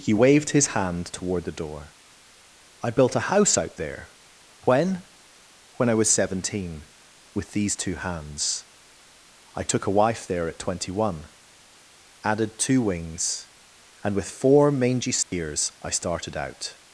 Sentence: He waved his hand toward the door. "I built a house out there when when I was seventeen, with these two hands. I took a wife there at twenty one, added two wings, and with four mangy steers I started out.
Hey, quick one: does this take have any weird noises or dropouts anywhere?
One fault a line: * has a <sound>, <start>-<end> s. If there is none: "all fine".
* has a dropout, 15.2-15.3 s